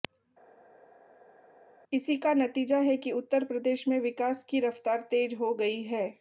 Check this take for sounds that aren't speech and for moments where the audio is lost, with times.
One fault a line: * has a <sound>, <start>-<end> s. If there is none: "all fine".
all fine